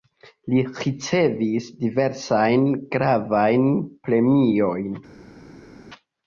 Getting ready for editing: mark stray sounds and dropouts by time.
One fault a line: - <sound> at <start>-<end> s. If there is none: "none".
none